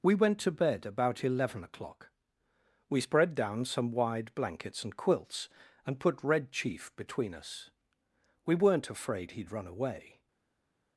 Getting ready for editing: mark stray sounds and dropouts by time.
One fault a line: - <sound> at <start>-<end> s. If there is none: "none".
none